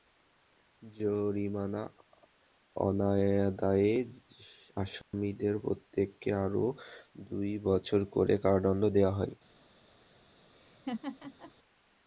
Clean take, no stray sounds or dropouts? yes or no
no